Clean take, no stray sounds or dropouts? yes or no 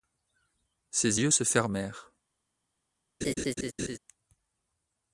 no